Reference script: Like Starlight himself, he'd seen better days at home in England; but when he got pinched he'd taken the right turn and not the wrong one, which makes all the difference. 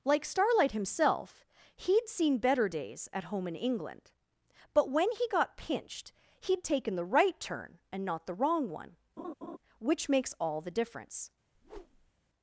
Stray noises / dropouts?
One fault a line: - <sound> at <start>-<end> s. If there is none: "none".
- laugh at 9.2-9.6 s
- whoosh at 11.5-12.1 s